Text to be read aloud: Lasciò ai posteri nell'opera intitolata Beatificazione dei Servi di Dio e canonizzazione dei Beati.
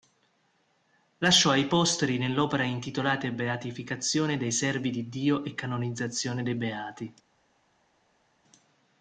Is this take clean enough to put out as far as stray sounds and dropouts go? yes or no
yes